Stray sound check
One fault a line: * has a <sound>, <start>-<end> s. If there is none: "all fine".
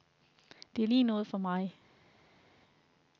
all fine